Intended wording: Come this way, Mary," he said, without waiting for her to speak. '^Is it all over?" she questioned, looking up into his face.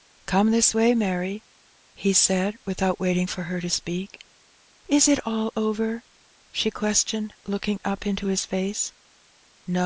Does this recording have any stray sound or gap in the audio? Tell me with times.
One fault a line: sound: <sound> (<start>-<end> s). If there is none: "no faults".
no faults